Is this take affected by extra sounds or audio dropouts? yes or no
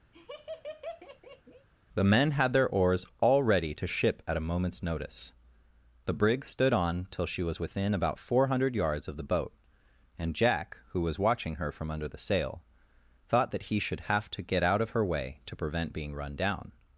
yes